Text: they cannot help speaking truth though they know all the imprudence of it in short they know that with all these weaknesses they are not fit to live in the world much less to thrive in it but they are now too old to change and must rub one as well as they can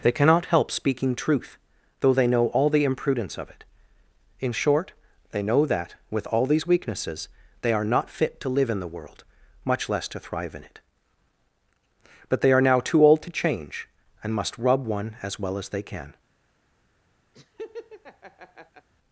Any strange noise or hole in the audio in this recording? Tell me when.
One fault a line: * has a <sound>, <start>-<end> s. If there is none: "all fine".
* has a laugh, 17.3-18.9 s